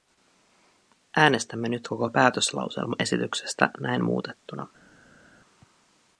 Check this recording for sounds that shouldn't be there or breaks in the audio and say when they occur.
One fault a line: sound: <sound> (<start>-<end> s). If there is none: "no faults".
no faults